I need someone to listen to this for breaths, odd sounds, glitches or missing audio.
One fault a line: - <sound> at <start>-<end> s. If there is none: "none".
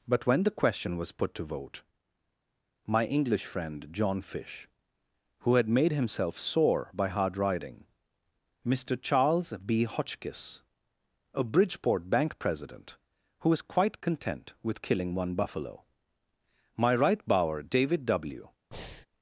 - breath at 18.7-19.1 s